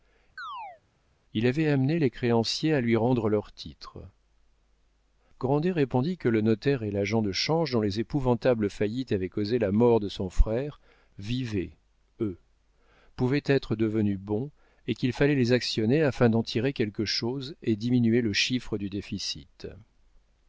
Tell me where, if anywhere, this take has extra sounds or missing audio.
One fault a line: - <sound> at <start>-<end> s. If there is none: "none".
- chirp at 0.4-0.8 s